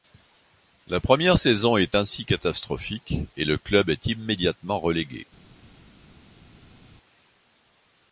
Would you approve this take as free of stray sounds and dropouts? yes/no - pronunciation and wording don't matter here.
yes